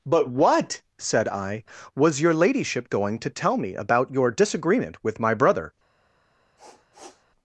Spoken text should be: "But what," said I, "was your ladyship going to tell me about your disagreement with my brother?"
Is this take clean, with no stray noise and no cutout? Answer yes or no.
no